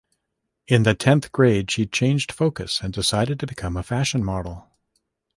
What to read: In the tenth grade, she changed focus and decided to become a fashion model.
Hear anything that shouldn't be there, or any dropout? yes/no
no